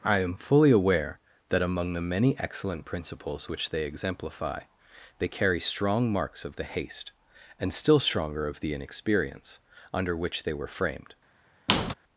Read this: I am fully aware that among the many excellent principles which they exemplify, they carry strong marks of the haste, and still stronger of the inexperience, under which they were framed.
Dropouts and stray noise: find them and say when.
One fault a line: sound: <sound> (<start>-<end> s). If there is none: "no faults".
sound: squeak (11.7-11.9 s)